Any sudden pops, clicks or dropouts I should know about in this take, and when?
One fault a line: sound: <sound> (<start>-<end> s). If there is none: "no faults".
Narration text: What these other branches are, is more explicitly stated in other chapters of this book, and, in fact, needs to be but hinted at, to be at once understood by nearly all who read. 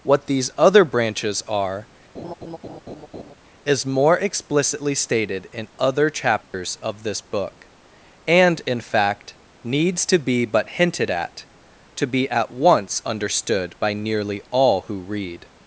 sound: laugh (2.1-3.4 s)
sound: dropout (6.4-6.5 s)